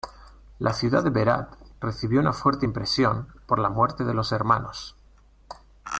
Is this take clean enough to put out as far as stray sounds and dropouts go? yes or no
yes